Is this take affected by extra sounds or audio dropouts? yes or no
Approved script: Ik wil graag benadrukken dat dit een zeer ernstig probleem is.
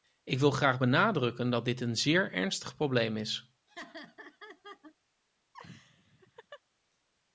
yes